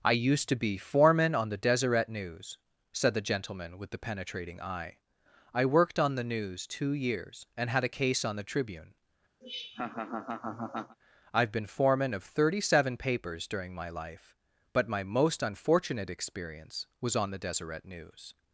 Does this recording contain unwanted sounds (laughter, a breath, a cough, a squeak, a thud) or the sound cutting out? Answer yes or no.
yes